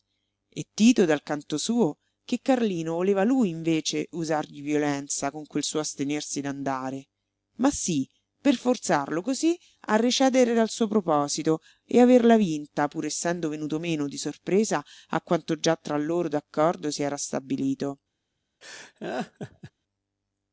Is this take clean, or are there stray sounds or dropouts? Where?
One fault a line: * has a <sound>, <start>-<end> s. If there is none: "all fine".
* has a laugh, 18.6-19.7 s